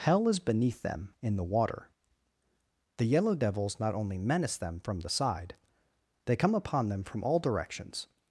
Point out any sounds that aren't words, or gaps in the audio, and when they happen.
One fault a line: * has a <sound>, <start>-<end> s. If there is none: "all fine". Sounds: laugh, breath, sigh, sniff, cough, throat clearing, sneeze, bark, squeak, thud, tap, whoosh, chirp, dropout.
all fine